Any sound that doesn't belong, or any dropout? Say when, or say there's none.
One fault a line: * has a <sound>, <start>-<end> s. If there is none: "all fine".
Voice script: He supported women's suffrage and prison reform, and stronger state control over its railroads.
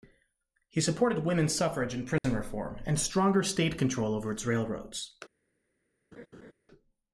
* has a dropout, 2.2-2.2 s
* has a laugh, 6.1-6.5 s